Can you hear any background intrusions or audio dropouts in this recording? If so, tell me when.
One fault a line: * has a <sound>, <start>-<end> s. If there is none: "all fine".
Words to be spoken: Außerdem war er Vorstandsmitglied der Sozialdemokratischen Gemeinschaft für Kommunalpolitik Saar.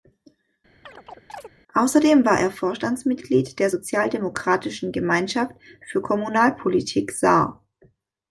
* has a chirp, 0.8-1.5 s